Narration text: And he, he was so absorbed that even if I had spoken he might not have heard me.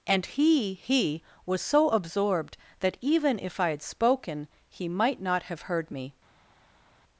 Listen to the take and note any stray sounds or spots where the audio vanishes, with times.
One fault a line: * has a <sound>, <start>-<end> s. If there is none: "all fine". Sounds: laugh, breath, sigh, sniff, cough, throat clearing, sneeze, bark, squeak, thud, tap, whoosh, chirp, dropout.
all fine